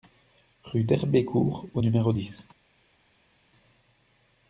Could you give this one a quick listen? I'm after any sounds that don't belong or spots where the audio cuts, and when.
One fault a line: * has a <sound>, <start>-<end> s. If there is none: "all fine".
all fine